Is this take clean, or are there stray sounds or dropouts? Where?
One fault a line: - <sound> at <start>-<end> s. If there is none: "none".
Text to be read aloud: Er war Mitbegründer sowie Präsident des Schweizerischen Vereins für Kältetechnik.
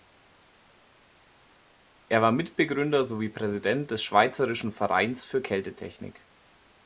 none